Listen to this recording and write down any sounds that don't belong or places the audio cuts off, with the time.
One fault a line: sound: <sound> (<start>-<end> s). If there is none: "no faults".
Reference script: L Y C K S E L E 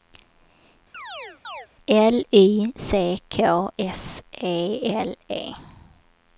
sound: chirp (0.9-1.7 s)